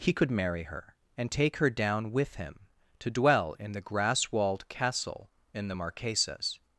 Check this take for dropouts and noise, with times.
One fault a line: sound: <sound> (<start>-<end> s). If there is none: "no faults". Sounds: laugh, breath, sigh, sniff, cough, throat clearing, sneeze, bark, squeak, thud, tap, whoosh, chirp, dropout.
no faults